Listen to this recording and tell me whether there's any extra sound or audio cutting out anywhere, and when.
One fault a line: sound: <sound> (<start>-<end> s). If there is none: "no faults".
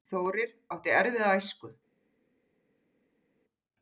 no faults